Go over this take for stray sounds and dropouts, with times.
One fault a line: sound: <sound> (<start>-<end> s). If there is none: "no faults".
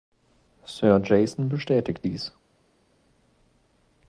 no faults